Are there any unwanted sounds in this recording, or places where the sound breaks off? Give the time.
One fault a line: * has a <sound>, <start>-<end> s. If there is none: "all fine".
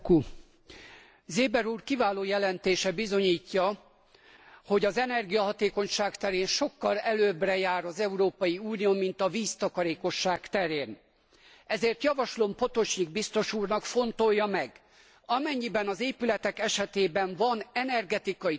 all fine